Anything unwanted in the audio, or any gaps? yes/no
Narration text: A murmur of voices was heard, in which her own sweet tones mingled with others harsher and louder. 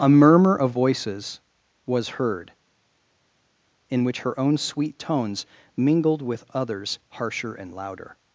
no